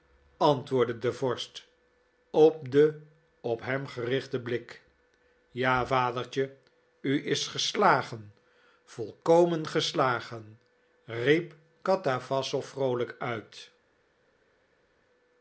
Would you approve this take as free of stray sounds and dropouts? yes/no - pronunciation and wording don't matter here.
yes